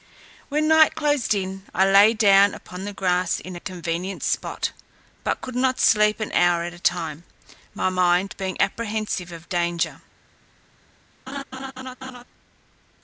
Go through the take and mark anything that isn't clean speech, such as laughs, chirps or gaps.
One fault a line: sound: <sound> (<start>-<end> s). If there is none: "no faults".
sound: laugh (11.3-12.2 s)